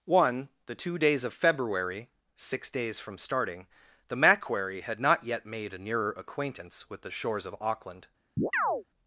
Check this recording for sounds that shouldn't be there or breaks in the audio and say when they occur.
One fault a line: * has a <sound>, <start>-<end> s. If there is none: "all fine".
* has a chirp, 8.4-8.8 s